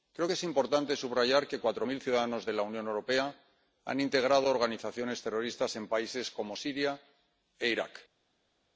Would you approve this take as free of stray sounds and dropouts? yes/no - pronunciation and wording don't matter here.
yes